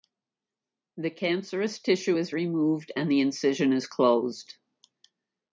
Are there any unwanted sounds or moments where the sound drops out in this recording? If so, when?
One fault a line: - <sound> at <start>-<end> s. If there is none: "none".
none